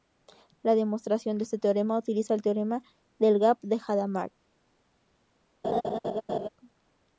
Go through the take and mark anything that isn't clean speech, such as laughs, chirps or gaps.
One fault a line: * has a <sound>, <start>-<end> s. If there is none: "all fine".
* has a laugh, 5.6-6.5 s